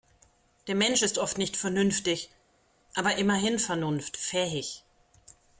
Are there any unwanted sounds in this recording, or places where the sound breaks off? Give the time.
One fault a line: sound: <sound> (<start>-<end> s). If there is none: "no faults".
no faults